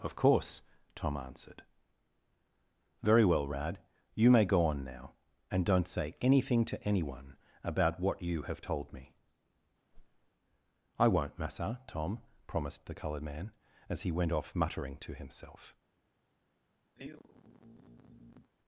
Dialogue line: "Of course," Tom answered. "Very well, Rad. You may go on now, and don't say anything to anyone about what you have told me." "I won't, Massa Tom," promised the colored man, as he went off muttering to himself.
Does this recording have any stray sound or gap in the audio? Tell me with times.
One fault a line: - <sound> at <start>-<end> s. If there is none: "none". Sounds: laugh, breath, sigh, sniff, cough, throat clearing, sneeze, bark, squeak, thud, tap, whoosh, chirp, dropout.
- whoosh at 9.9-10.3 s
- sigh at 17.0-18.5 s